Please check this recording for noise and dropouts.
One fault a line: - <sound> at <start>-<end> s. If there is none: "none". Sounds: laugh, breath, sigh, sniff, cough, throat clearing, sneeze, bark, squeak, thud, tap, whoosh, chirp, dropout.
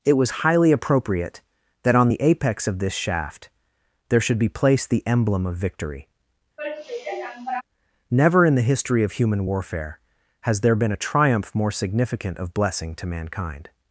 - sigh at 6.6-7.6 s